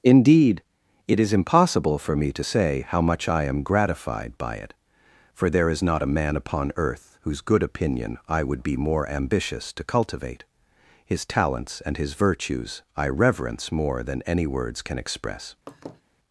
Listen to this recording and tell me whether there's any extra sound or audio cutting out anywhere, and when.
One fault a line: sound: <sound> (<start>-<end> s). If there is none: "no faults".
sound: laugh (15.7-16.0 s)